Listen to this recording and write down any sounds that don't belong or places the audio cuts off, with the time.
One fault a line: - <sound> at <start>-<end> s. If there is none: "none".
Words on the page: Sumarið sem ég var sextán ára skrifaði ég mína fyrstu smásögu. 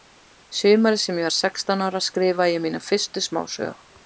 none